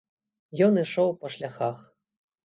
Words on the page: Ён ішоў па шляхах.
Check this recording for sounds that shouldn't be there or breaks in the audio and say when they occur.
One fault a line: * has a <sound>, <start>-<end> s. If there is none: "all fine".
all fine